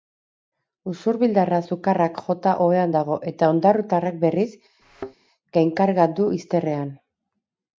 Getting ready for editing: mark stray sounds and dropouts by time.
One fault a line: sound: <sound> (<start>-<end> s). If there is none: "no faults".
sound: thud (4.8-5.2 s)